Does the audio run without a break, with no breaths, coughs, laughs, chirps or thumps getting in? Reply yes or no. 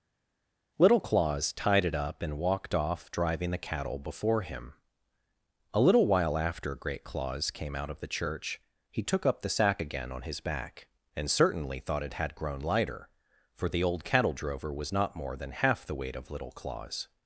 yes